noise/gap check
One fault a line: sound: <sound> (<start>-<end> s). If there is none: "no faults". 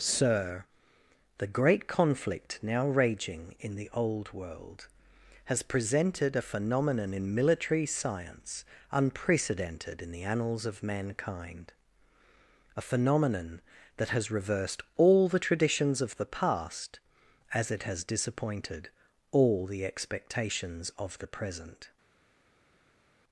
no faults